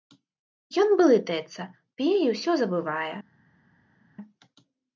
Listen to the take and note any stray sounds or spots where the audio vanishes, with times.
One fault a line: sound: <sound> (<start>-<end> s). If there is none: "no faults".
no faults